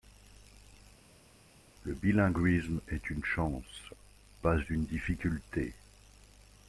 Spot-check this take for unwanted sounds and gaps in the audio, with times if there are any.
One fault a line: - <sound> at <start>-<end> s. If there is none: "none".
none